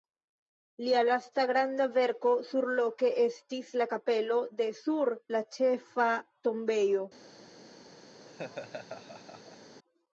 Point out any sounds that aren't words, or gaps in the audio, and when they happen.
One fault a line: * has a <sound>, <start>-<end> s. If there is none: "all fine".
* has a laugh, 8.2-9.8 s